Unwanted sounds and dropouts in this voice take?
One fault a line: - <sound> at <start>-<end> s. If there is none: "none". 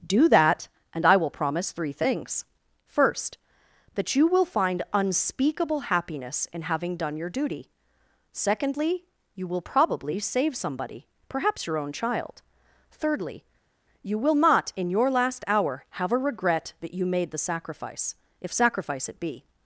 none